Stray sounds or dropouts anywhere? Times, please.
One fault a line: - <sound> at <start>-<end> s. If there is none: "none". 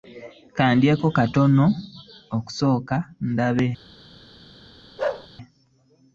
- bark at 5.0-5.3 s